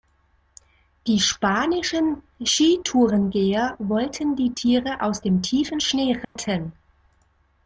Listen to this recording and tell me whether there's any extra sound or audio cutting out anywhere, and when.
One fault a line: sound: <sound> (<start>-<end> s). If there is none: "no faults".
sound: dropout (6.2-6.4 s)